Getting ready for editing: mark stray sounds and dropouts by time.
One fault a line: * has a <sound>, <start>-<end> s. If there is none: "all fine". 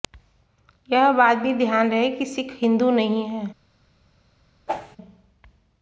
* has a whoosh, 4.7-5.0 s